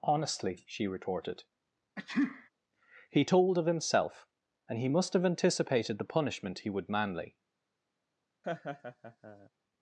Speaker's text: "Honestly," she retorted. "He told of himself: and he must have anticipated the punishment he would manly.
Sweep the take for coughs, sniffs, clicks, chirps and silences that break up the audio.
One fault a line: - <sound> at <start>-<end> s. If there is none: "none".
- sneeze at 2.0-2.5 s
- laugh at 8.4-9.5 s